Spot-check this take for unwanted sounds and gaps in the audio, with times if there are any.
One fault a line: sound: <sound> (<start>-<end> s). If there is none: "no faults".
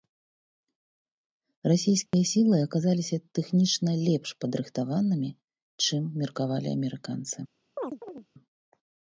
sound: dropout (2.1-2.1 s)
sound: chirp (7.8-8.3 s)